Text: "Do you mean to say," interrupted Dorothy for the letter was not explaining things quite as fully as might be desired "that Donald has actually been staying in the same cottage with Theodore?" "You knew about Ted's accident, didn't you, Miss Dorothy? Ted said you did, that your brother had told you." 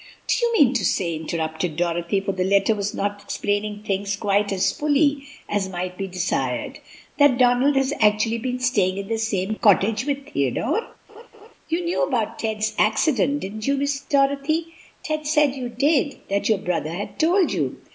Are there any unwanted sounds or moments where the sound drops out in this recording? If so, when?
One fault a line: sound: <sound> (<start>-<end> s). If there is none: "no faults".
sound: laugh (11.1-11.5 s)